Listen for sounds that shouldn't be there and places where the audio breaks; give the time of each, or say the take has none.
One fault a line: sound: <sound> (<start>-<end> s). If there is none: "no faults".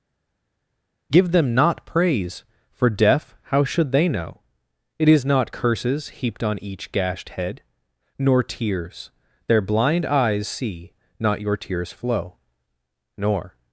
no faults